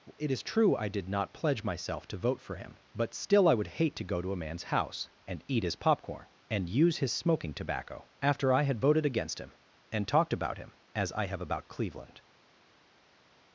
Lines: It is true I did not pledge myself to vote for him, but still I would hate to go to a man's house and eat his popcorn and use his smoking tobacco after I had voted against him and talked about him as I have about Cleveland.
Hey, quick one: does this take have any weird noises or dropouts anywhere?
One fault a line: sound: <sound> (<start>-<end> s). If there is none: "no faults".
no faults